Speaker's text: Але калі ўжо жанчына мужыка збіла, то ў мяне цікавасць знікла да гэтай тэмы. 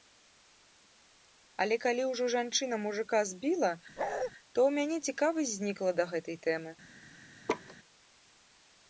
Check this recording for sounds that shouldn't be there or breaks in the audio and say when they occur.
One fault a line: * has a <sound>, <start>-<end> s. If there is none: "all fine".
* has a bark, 4.0-4.3 s
* has a laugh, 7.5-7.8 s